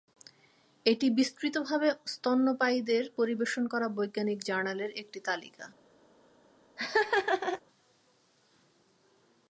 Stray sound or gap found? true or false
true